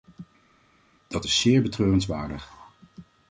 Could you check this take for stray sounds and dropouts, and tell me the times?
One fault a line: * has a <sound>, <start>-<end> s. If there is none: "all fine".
all fine